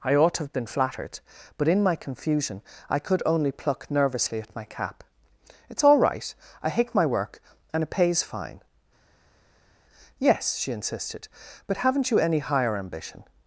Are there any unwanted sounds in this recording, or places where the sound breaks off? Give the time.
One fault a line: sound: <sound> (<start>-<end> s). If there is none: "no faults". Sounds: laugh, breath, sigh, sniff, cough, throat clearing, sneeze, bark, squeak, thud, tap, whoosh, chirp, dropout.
no faults